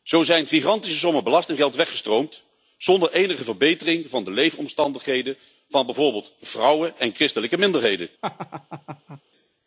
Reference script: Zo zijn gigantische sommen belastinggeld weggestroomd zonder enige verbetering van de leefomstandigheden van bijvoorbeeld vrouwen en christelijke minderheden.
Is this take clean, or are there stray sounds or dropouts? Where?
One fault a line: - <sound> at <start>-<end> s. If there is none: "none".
- laugh at 8.2-9.2 s